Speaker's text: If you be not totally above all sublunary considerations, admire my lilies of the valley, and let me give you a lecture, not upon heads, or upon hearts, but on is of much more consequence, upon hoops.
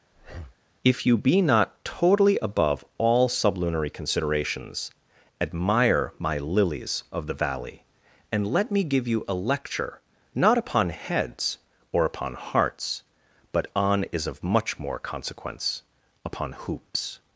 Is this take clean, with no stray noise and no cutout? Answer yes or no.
no